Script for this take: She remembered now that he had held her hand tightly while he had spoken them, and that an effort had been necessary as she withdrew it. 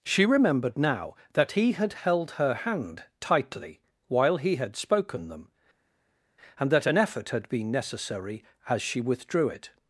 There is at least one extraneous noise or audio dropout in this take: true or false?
false